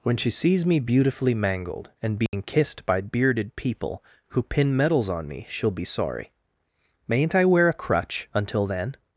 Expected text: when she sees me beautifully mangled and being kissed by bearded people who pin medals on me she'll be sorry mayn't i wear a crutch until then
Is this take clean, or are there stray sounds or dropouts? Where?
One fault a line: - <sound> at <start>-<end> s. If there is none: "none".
- dropout at 2.3-2.3 s